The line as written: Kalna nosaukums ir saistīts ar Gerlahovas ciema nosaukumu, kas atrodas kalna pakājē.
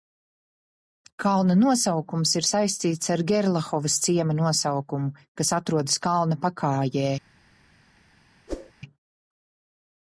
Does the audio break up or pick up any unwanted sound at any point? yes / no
yes